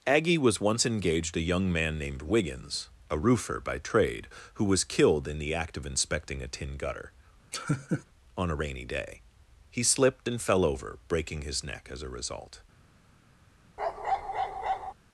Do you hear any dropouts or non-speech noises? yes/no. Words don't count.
yes